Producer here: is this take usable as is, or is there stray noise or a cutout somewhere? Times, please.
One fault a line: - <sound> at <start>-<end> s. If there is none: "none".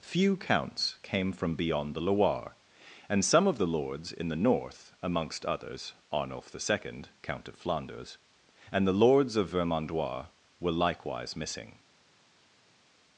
none